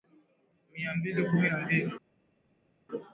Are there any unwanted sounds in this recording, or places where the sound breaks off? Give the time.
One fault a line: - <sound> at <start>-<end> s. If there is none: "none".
none